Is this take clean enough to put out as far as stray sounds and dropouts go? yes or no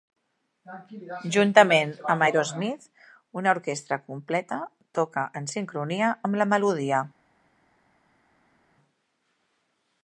yes